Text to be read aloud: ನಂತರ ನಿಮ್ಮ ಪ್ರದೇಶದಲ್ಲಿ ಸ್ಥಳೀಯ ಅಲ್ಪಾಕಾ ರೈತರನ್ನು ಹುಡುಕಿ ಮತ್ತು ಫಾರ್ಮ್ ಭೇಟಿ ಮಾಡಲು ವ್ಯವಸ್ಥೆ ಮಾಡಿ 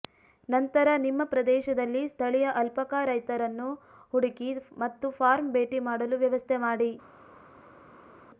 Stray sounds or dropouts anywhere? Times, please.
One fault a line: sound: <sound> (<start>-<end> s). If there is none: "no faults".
no faults